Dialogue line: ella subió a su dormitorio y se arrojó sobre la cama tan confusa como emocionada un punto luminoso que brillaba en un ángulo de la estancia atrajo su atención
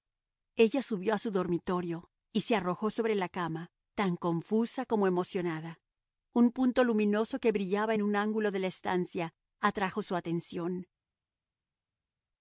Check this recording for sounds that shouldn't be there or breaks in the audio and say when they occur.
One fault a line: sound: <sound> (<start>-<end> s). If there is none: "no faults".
no faults